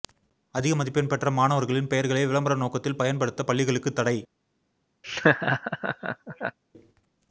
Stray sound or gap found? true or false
true